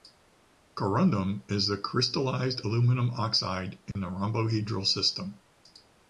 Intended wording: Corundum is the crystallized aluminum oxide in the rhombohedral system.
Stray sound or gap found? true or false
true